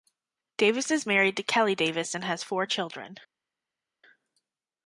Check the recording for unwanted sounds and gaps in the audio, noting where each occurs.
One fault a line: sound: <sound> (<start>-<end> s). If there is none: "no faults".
no faults